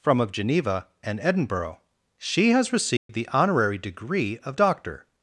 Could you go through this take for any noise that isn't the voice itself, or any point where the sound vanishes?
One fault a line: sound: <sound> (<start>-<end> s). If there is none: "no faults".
sound: dropout (3.0-3.1 s)